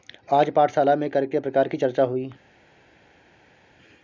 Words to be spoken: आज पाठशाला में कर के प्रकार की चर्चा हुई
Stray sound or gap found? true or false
false